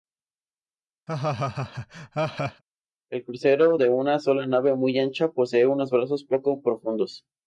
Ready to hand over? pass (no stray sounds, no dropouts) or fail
fail